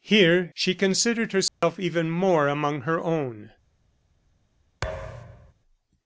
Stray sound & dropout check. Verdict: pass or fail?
fail